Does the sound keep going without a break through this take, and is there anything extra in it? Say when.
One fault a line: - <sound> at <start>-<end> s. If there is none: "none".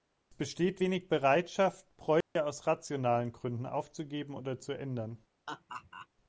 - dropout at 2.2-2.4 s
- laugh at 5.5-6.1 s